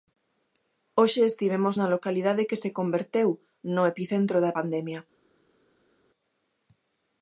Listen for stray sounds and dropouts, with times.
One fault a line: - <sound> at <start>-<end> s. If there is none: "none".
none